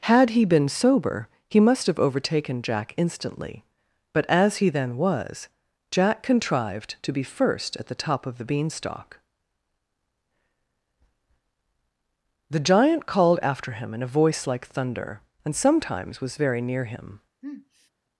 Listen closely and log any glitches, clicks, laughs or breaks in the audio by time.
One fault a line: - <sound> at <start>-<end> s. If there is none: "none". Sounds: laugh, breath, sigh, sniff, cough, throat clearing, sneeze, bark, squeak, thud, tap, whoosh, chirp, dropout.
- sniff at 17.4-17.9 s